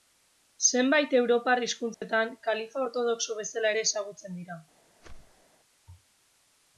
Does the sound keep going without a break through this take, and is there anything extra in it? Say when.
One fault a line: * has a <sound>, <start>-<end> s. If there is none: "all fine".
* has a dropout, 1.9-2.0 s
* has a whoosh, 5.0-5.5 s